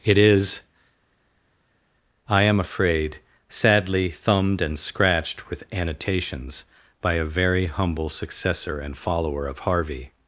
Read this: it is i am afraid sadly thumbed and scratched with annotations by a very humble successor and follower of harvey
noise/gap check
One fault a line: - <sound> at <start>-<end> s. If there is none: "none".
none